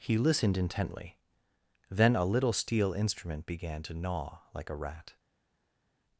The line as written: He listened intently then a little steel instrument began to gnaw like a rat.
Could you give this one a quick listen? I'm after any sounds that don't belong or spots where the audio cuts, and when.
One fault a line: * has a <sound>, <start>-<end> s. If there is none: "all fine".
all fine